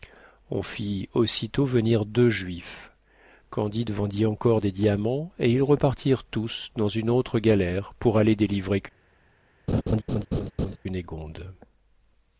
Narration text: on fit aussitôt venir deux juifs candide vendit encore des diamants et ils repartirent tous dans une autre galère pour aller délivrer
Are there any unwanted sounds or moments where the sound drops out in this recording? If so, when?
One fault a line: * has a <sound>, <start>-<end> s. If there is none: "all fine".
* has a laugh, 9.7-10.8 s